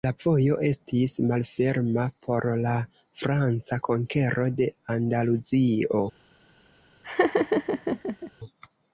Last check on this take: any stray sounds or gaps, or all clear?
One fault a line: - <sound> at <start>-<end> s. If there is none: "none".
- laugh at 7.0-8.3 s